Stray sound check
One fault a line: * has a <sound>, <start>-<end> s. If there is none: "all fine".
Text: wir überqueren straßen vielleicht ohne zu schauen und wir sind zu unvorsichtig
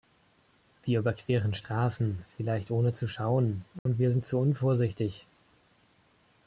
* has a dropout, 3.8-3.9 s